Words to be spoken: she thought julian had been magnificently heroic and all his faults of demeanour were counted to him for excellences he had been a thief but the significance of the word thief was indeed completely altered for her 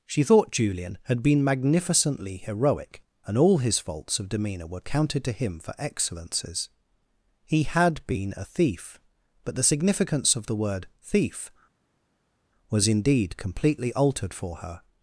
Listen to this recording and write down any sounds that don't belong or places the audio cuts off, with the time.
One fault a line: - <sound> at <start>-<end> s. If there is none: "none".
none